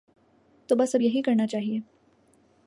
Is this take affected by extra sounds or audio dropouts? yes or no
no